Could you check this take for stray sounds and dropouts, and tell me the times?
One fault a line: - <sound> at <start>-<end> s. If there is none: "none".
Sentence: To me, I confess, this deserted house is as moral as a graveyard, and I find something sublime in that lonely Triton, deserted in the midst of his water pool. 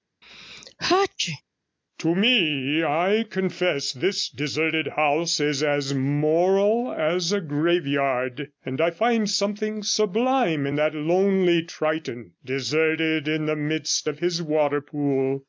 - sneeze at 0.2-1.4 s